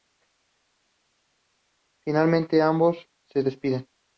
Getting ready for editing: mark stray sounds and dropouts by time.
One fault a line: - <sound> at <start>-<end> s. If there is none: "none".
none